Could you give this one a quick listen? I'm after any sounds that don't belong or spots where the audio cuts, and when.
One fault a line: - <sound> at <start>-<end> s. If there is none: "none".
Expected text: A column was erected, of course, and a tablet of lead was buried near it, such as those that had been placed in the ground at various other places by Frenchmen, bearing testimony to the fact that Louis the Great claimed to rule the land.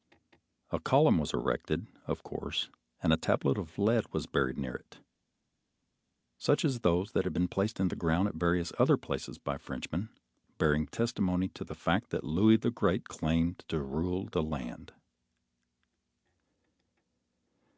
none